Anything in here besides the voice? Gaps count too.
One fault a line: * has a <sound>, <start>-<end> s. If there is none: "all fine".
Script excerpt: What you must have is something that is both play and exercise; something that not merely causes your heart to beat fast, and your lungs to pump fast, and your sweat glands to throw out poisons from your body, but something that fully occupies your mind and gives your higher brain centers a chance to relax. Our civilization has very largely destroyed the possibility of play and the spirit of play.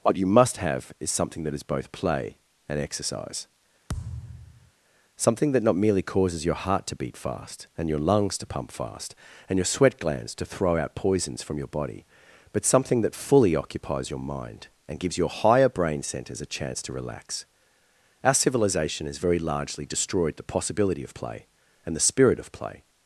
* has a thud, 3.9-4.7 s